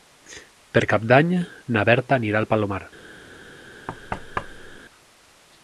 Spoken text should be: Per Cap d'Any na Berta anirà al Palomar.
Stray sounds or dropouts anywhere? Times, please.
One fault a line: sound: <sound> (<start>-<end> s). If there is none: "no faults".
sound: thud (3.9-4.8 s)